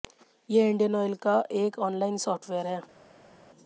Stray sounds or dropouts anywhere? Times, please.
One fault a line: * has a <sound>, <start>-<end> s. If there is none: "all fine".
all fine